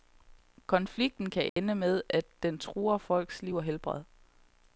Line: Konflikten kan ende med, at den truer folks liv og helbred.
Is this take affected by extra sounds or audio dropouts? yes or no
yes